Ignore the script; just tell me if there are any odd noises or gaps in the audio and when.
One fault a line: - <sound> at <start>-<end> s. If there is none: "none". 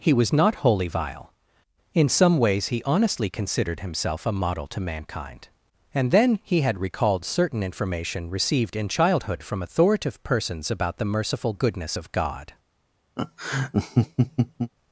- laugh at 13.2-14.7 s